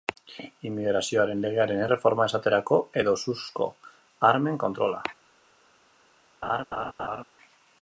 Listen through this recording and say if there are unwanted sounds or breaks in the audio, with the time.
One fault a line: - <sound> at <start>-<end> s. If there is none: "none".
- laugh at 6.4-7.2 s